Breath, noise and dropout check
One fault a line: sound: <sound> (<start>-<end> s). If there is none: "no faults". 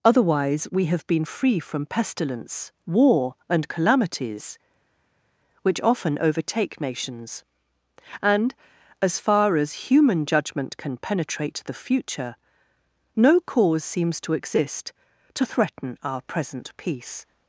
no faults